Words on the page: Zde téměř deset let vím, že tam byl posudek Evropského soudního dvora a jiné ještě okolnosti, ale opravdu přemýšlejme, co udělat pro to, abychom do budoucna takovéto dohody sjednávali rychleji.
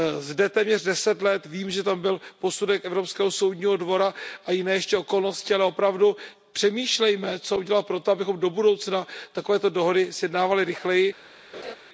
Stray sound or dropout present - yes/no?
yes